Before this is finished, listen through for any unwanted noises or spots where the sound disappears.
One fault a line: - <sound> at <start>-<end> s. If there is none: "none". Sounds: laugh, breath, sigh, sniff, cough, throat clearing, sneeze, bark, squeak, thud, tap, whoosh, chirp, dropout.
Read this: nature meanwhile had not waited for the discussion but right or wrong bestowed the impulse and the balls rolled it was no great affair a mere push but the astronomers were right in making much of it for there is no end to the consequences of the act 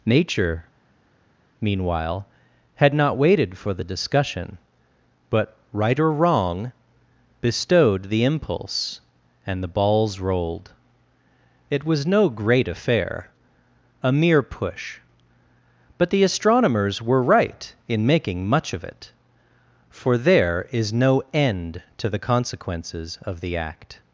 none